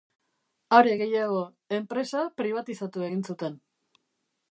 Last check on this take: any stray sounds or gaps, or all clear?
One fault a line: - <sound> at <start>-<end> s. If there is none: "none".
none